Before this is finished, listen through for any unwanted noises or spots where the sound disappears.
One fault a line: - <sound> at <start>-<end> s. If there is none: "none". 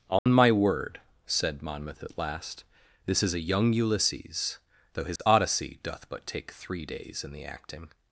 - dropout at 0.2-0.3 s
- dropout at 5.2-5.2 s